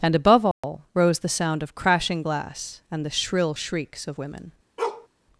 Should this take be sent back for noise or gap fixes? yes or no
yes